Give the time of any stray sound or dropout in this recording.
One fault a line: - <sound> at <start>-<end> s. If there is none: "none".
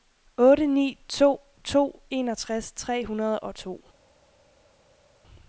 none